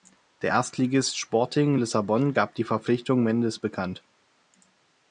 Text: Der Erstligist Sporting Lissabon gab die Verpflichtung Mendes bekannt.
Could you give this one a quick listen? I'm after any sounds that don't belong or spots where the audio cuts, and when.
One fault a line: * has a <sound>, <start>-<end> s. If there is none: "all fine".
all fine